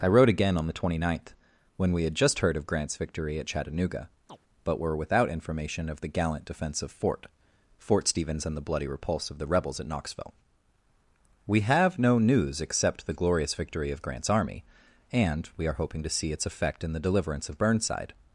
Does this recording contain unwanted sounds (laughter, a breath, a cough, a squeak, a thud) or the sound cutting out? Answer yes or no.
yes